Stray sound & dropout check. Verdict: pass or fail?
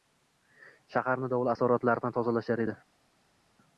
pass